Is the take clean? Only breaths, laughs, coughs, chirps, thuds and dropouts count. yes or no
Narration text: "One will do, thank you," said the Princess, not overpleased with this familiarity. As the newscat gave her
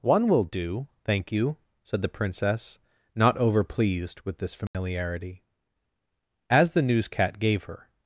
no